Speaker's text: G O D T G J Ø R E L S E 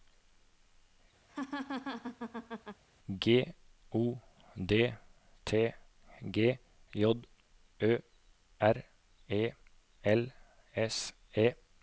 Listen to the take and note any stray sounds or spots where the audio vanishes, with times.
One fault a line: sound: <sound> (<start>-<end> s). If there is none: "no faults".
sound: laugh (1.3-2.8 s)